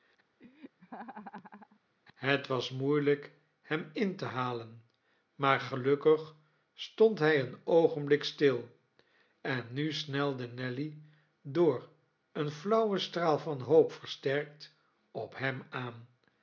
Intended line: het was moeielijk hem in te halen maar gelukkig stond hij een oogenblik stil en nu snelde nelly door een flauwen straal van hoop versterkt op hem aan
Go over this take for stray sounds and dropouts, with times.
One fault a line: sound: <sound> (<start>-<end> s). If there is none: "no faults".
sound: laugh (0.4-1.8 s)